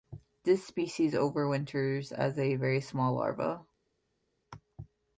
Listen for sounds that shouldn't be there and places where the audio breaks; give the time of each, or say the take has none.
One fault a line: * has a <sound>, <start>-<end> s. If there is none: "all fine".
all fine